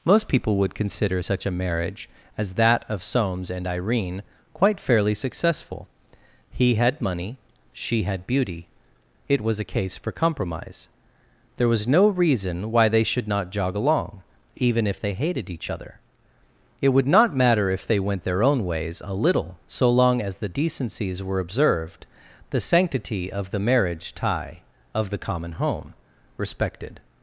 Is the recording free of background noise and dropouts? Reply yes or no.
yes